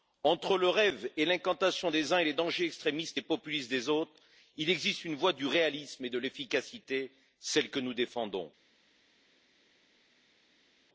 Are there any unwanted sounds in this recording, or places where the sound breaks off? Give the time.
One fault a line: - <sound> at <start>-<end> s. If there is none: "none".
none